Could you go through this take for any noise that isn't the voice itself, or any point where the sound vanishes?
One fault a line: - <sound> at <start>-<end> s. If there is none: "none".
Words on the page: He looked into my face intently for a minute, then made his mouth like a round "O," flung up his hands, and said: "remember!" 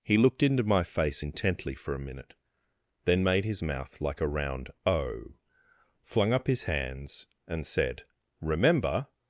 none